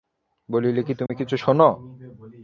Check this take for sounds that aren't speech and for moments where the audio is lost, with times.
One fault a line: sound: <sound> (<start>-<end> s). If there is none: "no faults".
sound: dropout (1.1-1.1 s)